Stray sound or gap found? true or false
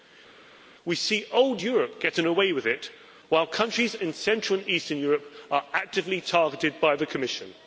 false